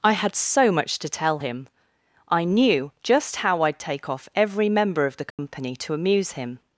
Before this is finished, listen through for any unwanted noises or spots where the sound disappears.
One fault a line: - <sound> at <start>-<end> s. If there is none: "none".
- dropout at 5.3-5.4 s